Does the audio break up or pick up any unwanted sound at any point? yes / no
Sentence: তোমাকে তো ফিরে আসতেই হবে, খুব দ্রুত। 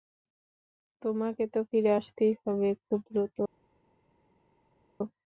no